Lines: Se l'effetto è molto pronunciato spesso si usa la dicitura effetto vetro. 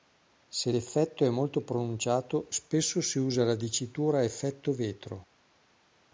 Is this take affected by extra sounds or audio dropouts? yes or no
no